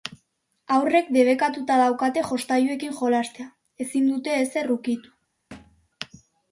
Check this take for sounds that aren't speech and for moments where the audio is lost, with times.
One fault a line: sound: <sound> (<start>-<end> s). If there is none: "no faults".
sound: thud (5.5-5.9 s)